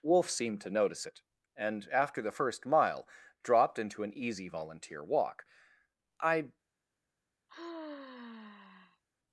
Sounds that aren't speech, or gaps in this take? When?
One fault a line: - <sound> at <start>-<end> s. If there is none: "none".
- sigh at 7.5-9.0 s